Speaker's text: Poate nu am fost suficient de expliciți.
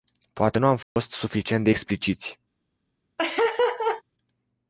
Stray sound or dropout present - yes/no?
yes